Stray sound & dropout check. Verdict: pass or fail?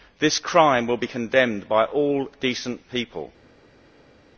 pass